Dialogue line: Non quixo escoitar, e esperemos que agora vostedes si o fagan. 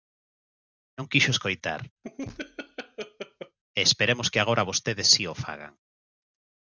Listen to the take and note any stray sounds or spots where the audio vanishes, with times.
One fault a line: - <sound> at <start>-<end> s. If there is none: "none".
- laugh at 2.0-3.6 s